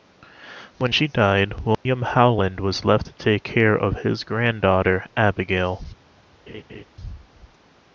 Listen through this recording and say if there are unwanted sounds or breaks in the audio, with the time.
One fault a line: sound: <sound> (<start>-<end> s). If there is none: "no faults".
sound: dropout (1.7-1.9 s)
sound: laugh (6.5-6.8 s)